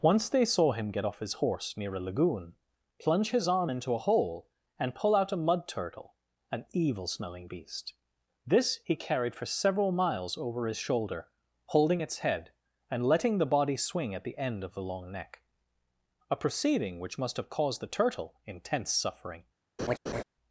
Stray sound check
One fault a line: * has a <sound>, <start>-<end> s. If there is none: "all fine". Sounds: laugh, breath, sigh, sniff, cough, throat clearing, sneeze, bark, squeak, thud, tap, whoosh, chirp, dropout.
* has a laugh, 19.8-20.2 s